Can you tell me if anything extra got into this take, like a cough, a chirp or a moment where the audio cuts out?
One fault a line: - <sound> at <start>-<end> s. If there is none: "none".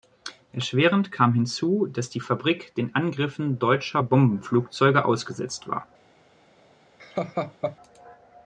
- laugh at 7.0-7.8 s